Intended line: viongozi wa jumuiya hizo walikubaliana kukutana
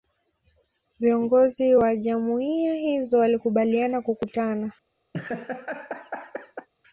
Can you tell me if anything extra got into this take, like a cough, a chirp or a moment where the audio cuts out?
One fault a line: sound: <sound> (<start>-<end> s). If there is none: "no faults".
sound: laugh (5.1-6.7 s)